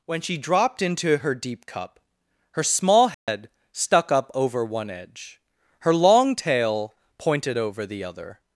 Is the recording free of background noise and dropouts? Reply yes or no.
no